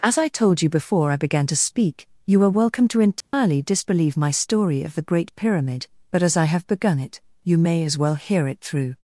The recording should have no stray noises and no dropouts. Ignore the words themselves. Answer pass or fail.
fail